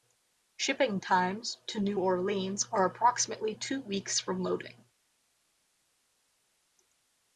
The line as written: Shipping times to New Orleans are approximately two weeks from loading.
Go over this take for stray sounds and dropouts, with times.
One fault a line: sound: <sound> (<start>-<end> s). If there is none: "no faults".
no faults